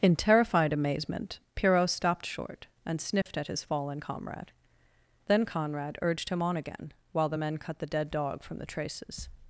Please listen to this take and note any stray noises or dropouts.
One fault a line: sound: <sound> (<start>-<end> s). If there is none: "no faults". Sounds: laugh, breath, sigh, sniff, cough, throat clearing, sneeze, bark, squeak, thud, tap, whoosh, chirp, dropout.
sound: dropout (3.2-3.3 s)